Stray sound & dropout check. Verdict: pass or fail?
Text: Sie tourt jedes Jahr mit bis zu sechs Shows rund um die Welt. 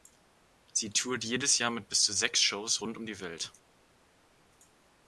pass